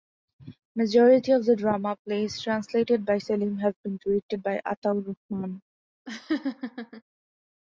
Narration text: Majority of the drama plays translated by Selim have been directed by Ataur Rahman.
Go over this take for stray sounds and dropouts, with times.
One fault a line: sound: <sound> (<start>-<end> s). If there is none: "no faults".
sound: laugh (6.1-7.0 s)